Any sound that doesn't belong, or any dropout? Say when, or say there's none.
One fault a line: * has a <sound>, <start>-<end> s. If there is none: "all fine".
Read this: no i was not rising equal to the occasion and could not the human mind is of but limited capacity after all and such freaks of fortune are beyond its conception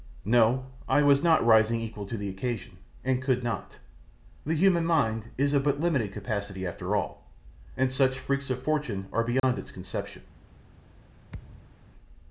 * has a dropout, 9.4-9.4 s
* has a thud, 11.3-11.9 s